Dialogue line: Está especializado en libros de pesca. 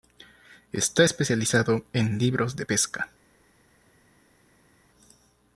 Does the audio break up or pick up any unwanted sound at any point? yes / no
no